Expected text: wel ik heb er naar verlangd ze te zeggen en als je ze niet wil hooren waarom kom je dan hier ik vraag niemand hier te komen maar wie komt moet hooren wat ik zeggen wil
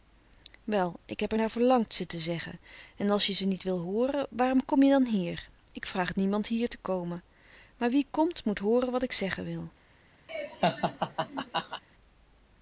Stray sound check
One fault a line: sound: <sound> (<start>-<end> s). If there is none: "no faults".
sound: laugh (10.3-11.8 s)